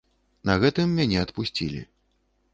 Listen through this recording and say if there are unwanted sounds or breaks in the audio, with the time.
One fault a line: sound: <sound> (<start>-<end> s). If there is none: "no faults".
no faults